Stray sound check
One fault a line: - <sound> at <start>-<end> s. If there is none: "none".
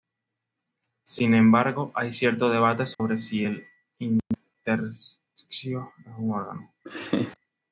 - dropout at 2.9-3.0 s
- laugh at 6.8-7.4 s